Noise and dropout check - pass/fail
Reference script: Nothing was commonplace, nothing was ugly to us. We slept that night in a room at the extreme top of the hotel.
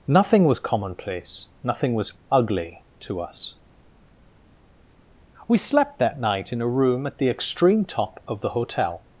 pass